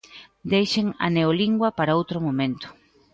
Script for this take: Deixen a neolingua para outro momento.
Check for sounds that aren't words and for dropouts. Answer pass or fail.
pass